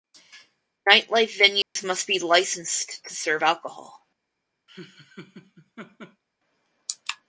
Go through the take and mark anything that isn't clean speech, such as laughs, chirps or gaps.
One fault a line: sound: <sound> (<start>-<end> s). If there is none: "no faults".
sound: dropout (1.6-1.8 s)
sound: laugh (4.7-6.2 s)